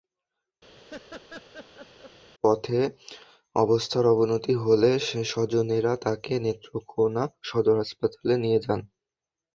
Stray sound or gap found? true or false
true